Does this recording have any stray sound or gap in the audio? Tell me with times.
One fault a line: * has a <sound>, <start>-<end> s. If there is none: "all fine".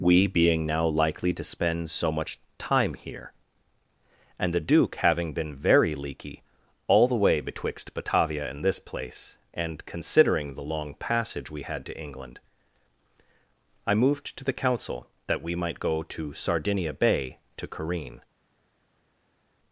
all fine